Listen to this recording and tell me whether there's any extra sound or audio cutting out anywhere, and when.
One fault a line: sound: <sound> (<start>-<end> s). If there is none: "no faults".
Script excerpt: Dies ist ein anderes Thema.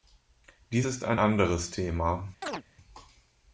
sound: chirp (2.4-2.6 s)